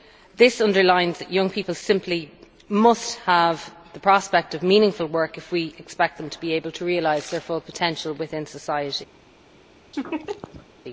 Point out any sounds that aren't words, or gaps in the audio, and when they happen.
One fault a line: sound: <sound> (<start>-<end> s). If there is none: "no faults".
sound: laugh (9.9-10.7 s)